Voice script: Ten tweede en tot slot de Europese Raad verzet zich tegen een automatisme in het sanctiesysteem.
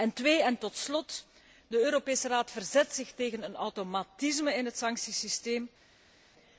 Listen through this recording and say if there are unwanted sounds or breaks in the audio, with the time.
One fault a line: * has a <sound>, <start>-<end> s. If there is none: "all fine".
all fine